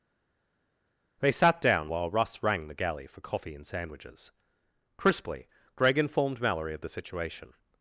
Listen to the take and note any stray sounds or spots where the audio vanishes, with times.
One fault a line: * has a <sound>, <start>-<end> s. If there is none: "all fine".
all fine